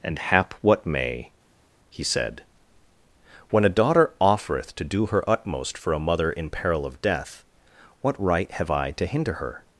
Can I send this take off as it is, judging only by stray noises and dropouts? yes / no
yes